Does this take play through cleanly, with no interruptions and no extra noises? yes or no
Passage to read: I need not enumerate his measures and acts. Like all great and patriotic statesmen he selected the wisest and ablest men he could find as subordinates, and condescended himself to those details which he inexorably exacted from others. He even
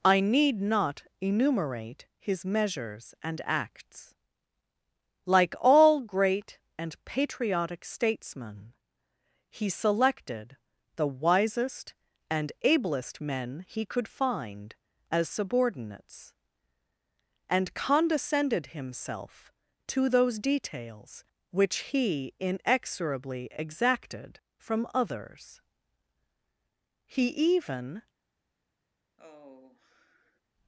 no